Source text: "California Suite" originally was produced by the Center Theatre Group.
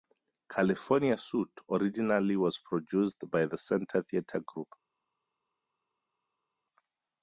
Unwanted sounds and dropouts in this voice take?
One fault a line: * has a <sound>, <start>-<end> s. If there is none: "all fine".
all fine